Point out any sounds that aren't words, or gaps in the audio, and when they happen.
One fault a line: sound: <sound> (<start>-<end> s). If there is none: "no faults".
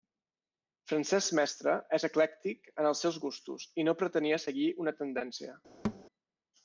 sound: thud (5.8-6.0 s)